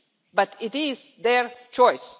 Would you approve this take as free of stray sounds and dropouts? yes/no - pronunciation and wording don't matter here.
yes